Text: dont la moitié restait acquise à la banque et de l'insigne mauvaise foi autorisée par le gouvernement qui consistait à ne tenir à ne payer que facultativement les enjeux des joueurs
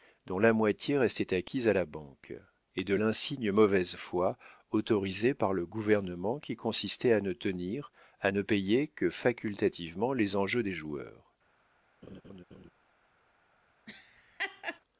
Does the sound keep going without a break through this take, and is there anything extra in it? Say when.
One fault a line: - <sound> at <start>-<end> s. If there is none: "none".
- laugh at 12.0-12.7 s
- laugh at 13.9-14.8 s